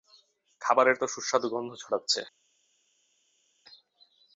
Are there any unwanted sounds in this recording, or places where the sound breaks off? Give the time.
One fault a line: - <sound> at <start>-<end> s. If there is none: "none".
none